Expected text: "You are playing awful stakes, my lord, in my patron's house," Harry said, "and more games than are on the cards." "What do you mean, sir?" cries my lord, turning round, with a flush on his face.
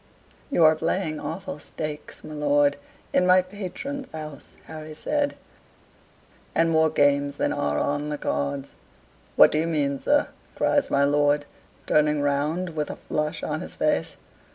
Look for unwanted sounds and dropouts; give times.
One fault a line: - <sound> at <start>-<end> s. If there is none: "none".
none